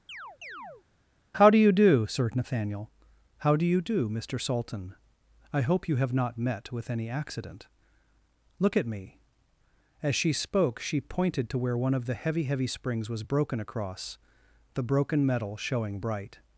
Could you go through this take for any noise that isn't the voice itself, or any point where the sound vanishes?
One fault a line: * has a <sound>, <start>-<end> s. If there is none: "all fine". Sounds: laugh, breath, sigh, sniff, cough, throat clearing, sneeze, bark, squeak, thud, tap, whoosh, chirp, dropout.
* has a chirp, 0.1-0.8 s